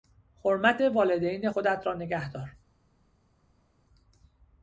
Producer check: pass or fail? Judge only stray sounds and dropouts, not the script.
pass